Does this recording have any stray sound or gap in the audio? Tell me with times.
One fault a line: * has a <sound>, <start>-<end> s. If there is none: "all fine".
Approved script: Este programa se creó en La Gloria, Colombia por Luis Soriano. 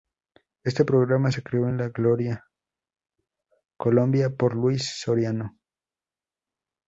all fine